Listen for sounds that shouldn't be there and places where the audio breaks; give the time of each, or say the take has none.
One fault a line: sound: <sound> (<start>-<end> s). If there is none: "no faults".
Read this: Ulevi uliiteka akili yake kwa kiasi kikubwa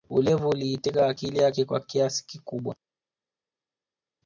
no faults